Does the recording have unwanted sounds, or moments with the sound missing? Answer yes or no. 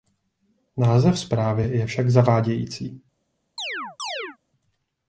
yes